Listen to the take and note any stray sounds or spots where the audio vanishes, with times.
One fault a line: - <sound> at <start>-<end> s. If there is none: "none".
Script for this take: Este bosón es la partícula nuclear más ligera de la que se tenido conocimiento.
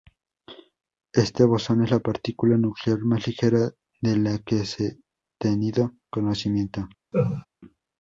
- laugh at 7.1-7.5 s